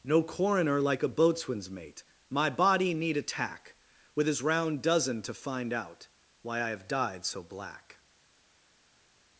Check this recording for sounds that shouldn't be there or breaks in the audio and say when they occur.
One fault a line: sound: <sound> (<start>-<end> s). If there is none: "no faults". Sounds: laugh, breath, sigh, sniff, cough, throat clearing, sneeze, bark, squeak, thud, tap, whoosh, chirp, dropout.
no faults